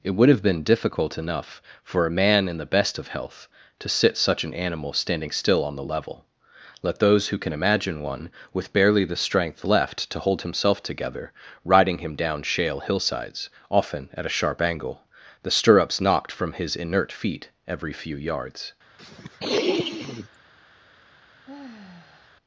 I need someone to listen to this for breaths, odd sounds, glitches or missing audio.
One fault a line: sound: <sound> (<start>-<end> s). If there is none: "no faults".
sound: sniff (19.0-20.4 s)
sound: sigh (21.4-22.3 s)